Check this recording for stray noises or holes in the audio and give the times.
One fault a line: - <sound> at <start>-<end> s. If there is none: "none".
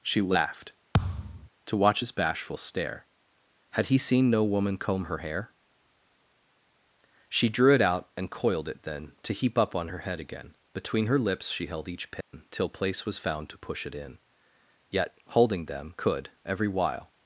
- thud at 0.9-1.5 s
- dropout at 12.2-12.3 s